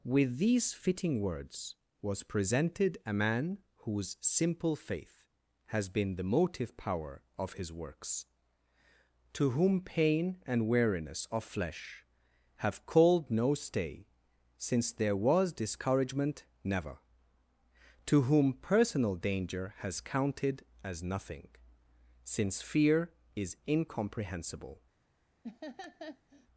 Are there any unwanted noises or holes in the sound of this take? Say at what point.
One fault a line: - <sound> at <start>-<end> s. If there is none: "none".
- laugh at 25.4-26.5 s